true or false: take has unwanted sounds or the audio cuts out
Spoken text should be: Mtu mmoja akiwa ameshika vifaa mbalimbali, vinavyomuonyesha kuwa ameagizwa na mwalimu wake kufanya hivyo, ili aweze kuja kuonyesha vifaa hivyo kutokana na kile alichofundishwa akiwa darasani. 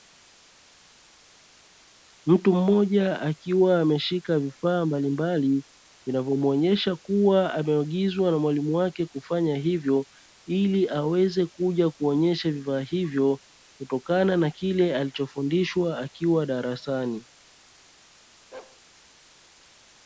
true